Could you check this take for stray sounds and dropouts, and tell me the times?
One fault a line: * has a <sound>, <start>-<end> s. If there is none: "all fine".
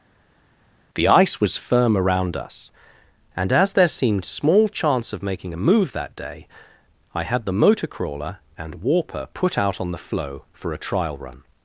all fine